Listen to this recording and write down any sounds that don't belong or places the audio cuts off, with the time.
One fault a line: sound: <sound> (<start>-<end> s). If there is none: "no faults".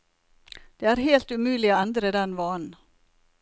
no faults